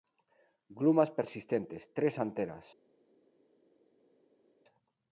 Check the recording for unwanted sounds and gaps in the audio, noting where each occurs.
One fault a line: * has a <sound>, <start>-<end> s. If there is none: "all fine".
all fine